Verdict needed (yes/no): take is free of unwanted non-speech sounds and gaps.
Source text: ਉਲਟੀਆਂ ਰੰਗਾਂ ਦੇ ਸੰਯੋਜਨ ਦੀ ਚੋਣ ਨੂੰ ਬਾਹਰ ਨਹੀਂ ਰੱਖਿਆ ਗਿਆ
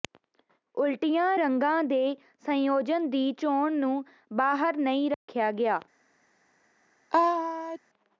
no